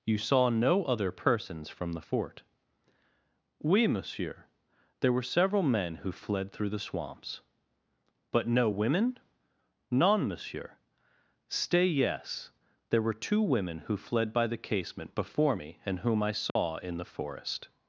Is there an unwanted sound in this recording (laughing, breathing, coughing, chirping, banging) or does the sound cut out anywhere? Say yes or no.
yes